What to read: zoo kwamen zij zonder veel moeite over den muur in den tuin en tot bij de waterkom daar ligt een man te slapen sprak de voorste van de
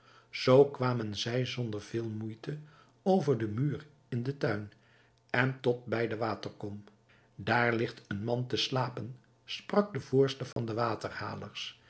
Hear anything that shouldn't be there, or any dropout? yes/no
yes